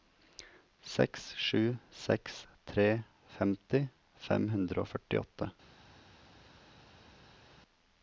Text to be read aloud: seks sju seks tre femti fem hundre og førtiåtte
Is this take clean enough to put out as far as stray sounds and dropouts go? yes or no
yes